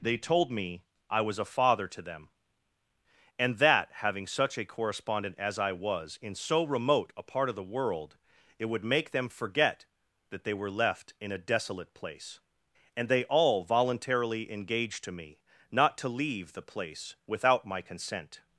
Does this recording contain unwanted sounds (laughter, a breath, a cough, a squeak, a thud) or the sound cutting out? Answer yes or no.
no